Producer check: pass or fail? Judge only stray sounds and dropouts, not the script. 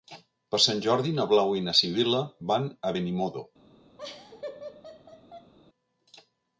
fail